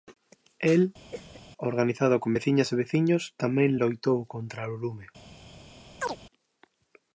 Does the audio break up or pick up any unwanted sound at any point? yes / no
yes